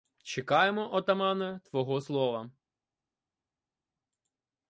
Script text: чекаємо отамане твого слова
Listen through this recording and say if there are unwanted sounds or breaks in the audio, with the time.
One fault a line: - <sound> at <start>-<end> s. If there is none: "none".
none